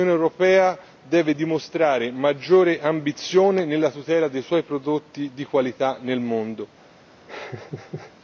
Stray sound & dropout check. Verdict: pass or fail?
fail